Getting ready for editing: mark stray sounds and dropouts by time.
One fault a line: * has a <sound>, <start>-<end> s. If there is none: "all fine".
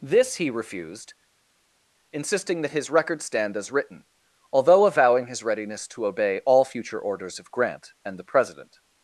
all fine